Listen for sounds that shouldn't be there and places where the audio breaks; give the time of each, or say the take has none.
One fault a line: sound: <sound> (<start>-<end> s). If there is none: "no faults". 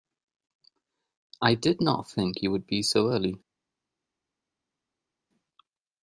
no faults